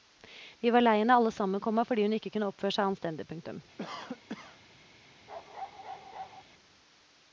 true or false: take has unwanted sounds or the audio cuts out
true